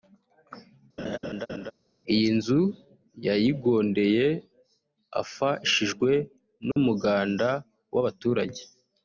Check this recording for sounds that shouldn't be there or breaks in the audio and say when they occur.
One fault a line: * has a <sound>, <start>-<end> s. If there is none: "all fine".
* has a laugh, 1.0-1.7 s
* has a dropout, 6.7-6.8 s